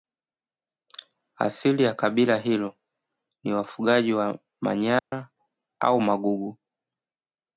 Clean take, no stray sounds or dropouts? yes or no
no